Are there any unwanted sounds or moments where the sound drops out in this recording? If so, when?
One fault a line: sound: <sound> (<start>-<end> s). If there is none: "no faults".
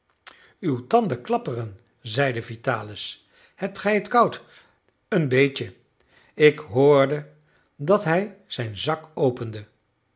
no faults